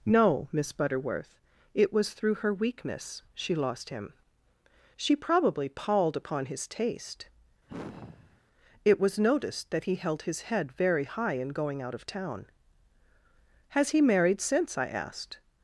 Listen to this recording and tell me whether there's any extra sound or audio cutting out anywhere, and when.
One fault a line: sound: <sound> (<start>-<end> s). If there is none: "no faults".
sound: sigh (7.7-8.4 s)